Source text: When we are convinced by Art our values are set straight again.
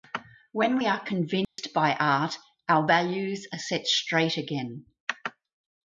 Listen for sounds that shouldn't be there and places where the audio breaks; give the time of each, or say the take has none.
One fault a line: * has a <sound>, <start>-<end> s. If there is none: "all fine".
* has a dropout, 1.4-1.6 s